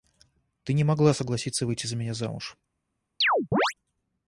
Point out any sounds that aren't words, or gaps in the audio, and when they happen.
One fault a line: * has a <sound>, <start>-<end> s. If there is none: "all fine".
* has a chirp, 3.2-3.7 s